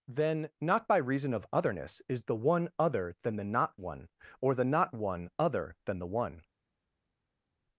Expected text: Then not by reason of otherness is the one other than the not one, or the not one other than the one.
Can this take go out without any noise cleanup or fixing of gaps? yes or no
yes